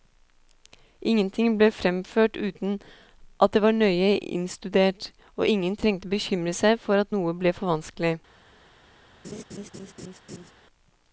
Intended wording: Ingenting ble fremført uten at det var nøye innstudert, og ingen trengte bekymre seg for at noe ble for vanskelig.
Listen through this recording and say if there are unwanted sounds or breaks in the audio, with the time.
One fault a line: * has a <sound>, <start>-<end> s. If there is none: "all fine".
* has a laugh, 9.2-10.5 s